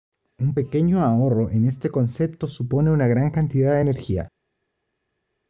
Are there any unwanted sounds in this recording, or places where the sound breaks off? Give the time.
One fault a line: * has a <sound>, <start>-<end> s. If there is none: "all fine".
all fine